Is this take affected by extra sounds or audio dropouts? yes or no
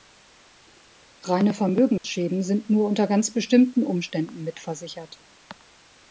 yes